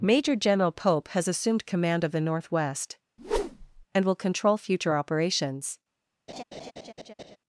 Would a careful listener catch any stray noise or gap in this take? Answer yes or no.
yes